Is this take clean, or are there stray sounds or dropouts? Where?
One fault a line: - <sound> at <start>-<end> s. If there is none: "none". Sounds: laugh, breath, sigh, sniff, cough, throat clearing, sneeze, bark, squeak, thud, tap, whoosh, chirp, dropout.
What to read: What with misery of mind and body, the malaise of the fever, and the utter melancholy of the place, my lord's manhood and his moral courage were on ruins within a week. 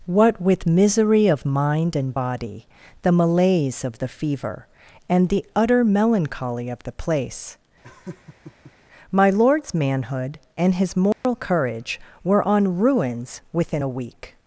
- laugh at 7.8-8.7 s
- dropout at 11.1-11.2 s